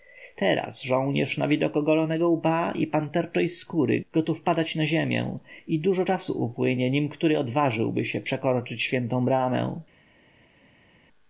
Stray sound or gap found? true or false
false